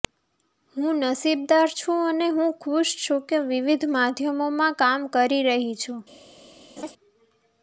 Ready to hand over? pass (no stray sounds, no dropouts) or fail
fail